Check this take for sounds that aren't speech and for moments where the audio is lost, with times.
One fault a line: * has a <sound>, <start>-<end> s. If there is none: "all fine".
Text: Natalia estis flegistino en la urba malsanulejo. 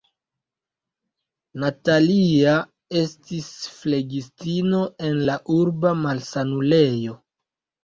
all fine